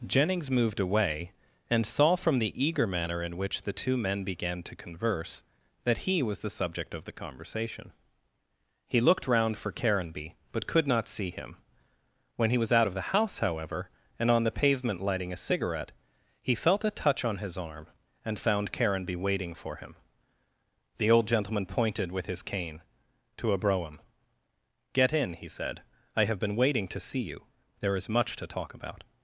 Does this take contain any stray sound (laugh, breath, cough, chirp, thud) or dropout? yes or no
no